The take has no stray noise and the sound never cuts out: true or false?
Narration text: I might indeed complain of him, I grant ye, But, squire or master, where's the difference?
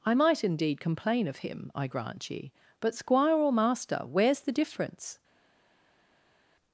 true